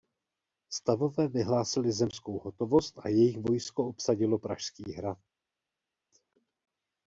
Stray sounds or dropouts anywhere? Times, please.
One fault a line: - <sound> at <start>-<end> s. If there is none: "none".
none